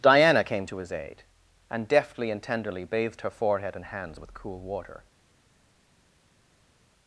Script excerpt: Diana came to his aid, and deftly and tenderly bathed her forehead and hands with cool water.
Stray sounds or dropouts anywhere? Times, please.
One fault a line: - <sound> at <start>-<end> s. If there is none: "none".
none